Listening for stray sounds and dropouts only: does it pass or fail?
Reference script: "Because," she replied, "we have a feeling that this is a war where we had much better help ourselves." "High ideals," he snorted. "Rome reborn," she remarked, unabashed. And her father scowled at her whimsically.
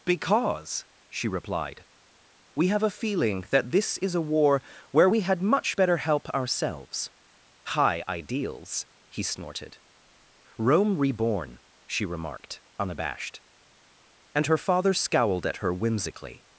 pass